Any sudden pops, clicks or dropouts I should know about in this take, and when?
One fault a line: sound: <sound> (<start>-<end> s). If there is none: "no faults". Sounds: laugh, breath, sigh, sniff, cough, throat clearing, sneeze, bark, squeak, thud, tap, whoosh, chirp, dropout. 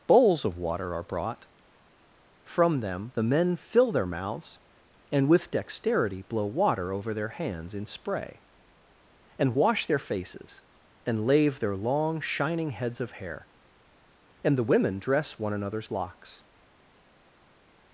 no faults